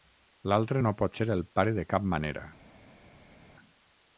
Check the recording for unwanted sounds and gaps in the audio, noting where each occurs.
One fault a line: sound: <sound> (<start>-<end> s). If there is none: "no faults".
no faults